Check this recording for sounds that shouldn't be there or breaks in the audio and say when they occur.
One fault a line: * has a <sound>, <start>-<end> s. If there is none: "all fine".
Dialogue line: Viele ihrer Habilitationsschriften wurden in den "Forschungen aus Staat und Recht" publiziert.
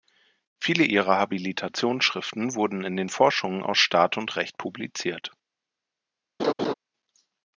* has a laugh, 6.4-6.7 s